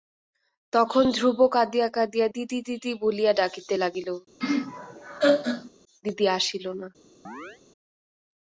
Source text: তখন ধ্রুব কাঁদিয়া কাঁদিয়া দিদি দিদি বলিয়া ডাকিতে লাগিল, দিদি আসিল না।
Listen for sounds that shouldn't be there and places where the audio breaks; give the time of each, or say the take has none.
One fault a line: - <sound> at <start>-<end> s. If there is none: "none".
- laugh at 4.4-5.7 s
- chirp at 7.2-7.6 s